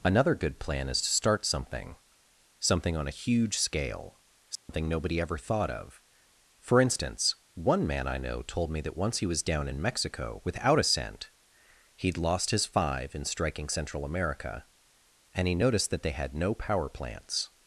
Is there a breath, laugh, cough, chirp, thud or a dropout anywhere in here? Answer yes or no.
yes